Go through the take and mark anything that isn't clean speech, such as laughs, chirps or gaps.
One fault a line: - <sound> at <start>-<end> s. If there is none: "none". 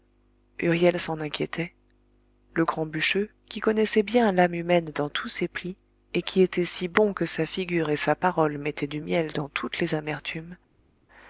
none